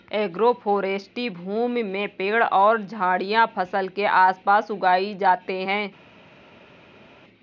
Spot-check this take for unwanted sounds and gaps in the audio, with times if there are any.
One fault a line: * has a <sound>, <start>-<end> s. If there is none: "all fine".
all fine